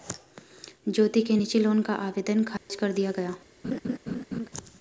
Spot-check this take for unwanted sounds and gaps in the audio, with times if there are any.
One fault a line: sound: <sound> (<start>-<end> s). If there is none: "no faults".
sound: dropout (2.6-2.7 s)
sound: laugh (3.6-4.5 s)